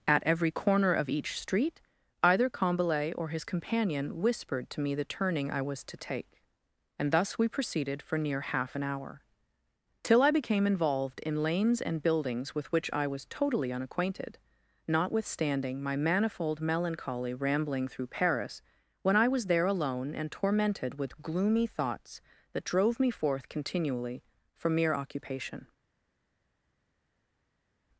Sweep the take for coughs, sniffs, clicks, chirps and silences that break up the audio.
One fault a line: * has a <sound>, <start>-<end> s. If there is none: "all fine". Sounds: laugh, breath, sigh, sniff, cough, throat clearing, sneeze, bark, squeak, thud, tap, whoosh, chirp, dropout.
all fine